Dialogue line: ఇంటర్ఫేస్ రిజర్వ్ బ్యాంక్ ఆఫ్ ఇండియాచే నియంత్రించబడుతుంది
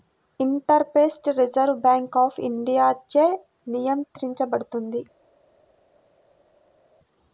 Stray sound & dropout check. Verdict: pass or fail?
pass